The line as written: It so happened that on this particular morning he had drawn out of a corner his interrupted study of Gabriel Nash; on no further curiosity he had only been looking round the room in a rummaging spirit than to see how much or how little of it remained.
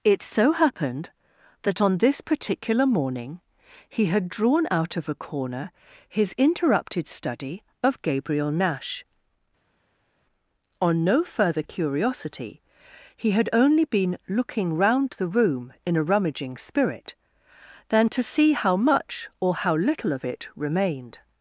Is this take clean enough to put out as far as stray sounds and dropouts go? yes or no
yes